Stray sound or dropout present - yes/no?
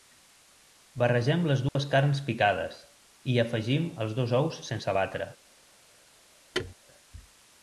yes